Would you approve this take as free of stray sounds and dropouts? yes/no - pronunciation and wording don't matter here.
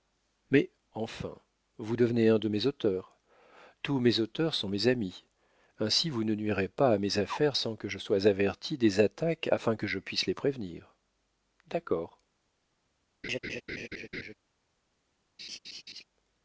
no